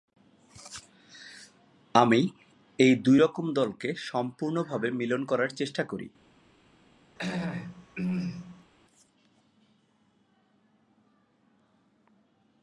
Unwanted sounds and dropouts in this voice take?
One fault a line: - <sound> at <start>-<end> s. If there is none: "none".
- throat clearing at 7.2-8.7 s